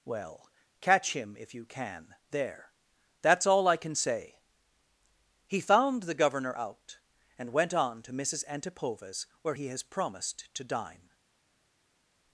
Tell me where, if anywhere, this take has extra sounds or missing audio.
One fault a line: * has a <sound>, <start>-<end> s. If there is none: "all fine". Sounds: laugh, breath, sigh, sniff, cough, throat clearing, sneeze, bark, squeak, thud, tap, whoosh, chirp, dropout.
all fine